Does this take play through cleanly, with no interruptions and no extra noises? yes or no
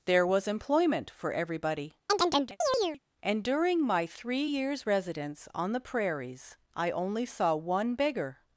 no